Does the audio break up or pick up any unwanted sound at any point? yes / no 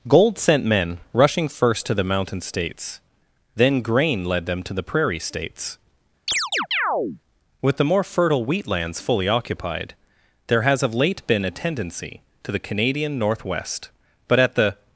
yes